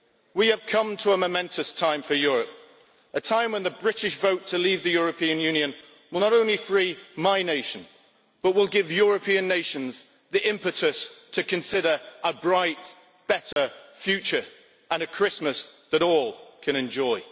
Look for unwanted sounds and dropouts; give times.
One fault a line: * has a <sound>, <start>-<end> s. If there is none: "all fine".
* has a dropout, 13.5-13.6 s